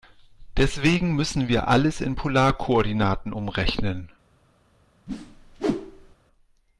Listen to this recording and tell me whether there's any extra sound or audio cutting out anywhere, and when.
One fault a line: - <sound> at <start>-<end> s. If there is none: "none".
- whoosh at 5.1-6.2 s